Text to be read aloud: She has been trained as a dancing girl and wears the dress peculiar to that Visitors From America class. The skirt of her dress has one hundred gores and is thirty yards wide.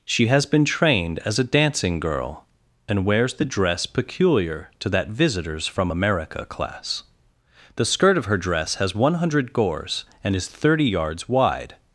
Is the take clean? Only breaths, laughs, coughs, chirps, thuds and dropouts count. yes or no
yes